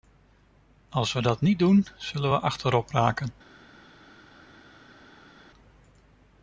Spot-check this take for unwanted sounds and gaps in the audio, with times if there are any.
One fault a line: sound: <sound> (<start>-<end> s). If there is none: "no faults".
no faults